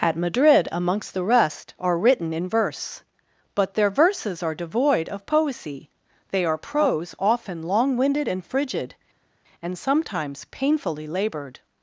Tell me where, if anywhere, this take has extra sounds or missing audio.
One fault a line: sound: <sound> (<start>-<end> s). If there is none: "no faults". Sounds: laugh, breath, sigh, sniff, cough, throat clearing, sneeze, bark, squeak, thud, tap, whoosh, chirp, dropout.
no faults